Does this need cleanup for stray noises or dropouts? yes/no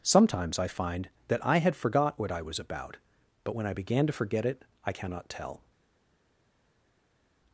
no